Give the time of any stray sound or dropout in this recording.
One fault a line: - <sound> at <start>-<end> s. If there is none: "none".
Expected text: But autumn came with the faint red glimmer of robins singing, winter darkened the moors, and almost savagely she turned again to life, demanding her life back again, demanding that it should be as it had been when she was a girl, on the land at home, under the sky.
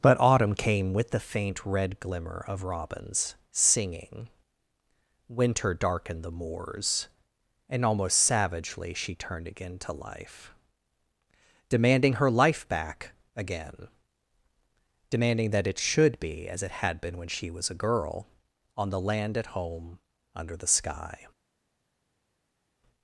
none